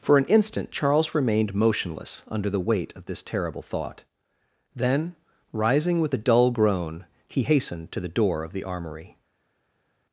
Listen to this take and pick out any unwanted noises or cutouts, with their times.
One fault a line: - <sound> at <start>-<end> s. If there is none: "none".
none